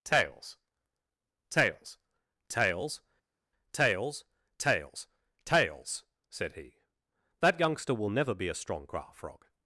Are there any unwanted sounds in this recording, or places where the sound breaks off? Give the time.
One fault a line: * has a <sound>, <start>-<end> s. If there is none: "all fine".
all fine